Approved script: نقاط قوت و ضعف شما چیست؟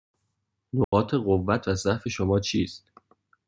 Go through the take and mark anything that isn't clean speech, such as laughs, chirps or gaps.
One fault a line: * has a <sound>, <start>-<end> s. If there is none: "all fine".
* has a dropout, 0.8-0.9 s